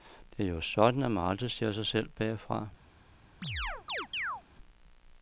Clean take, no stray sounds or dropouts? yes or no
no